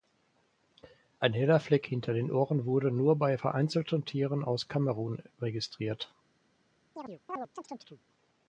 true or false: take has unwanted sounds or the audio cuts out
true